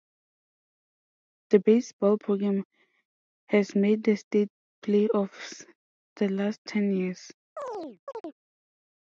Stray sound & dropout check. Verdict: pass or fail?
fail